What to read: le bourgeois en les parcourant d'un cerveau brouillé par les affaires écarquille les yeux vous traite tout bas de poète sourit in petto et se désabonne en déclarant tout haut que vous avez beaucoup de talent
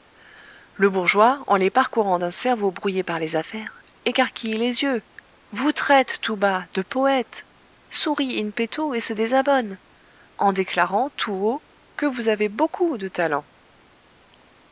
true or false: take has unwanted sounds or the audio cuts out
false